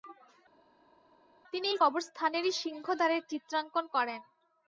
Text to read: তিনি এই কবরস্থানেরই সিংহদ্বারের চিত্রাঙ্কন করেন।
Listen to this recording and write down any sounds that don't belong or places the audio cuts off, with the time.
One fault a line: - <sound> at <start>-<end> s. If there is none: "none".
none